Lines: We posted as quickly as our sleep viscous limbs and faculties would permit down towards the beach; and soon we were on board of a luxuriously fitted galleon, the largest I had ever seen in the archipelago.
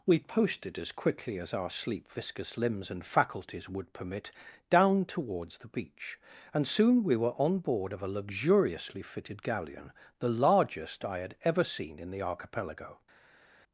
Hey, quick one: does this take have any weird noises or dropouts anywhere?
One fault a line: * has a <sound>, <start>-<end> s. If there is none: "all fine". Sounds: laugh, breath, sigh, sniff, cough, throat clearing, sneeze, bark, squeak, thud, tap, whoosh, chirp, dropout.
all fine